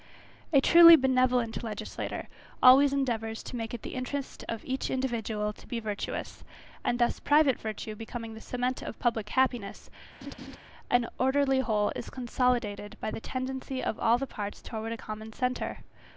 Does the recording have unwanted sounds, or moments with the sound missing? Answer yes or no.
yes